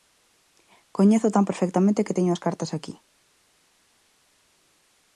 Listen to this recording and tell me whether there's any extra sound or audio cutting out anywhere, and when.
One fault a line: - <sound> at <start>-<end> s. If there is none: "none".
none